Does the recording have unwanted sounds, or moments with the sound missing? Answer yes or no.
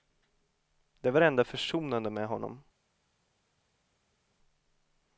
no